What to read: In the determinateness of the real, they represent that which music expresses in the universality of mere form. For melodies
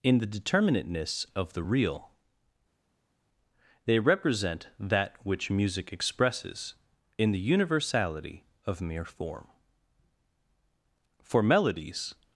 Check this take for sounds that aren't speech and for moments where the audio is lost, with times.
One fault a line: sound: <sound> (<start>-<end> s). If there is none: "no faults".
no faults